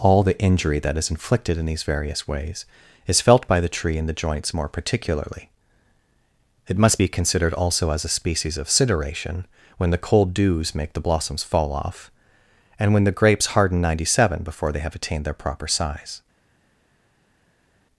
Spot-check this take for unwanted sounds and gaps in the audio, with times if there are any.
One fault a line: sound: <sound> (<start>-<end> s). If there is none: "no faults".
no faults